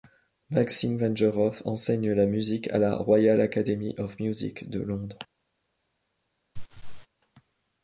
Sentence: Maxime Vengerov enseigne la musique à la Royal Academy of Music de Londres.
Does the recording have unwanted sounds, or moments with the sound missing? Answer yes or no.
yes